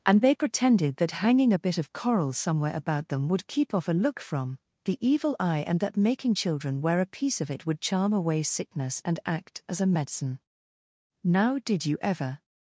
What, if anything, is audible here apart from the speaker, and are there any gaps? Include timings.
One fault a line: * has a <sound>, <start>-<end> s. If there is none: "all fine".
all fine